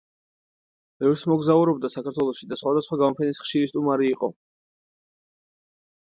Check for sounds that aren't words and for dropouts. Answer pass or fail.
pass